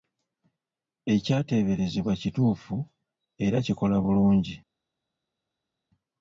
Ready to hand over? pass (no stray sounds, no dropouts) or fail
pass